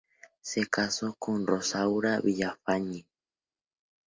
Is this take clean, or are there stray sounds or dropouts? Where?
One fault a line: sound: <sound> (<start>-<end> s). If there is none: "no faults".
no faults